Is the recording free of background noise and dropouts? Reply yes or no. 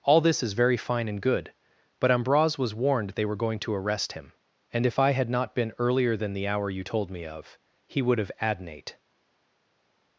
yes